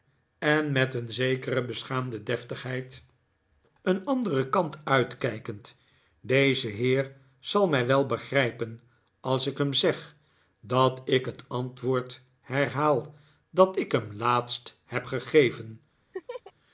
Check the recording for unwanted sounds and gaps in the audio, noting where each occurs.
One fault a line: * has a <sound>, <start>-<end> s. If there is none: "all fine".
* has a laugh, 16.1-16.5 s